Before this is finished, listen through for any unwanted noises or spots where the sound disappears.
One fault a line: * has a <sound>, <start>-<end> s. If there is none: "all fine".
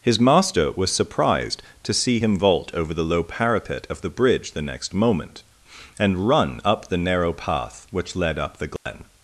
* has a dropout, 8.8-8.9 s